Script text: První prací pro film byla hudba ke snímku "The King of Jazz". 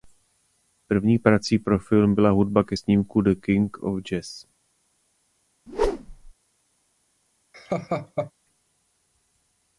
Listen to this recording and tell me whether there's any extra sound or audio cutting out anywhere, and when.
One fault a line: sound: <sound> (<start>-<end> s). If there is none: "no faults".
sound: whoosh (5.7-6.3 s)
sound: laugh (7.5-8.3 s)